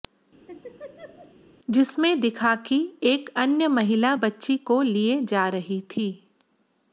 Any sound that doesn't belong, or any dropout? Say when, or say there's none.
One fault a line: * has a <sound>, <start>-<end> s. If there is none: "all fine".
* has a laugh, 0.5-1.4 s